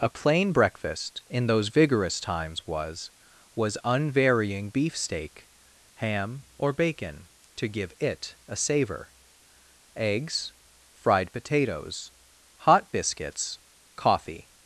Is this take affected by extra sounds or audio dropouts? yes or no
no